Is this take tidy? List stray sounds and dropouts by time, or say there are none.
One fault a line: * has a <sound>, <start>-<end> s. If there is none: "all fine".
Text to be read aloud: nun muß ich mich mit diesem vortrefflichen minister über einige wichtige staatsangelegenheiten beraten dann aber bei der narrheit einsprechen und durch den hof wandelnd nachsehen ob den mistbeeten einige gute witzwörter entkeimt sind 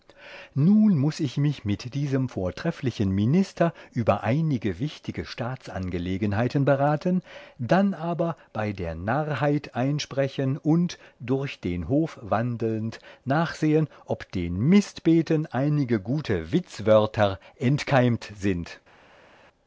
all fine